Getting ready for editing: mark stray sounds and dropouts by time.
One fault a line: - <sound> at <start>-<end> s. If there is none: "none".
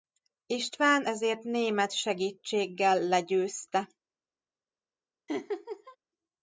- laugh at 5.3-6.0 s